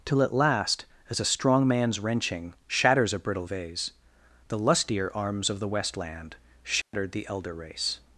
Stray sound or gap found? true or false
true